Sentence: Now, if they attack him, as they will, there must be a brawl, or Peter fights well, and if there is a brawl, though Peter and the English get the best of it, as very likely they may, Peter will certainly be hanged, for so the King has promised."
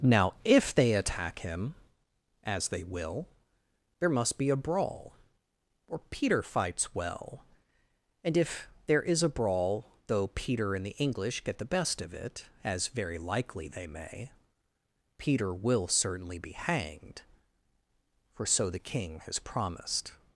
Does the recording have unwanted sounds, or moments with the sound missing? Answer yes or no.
no